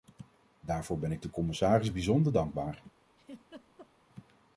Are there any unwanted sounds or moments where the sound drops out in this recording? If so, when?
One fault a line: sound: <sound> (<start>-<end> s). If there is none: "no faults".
sound: laugh (3.1-3.9 s)